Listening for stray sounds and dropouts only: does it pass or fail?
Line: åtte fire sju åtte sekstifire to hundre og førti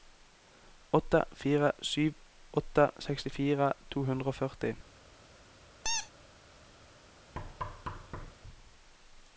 fail